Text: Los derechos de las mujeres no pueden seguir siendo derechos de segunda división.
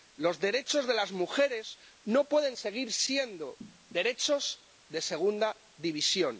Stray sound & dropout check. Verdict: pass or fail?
pass